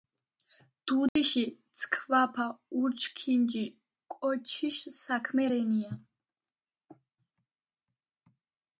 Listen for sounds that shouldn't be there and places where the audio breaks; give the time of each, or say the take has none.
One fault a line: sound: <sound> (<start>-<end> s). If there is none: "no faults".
sound: dropout (1.1-1.2 s)